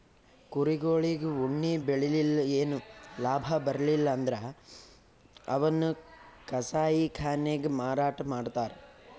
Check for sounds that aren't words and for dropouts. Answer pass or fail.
pass